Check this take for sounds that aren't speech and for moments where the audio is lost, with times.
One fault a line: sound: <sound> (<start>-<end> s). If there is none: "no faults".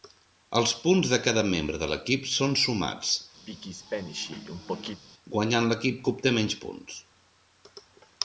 sound: throat clearing (3.5-5.0 s)